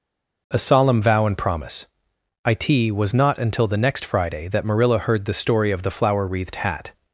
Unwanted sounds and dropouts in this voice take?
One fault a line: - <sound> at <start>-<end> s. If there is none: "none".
none